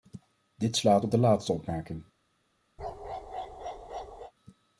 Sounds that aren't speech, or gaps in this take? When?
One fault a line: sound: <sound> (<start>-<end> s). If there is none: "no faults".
sound: bark (2.8-4.3 s)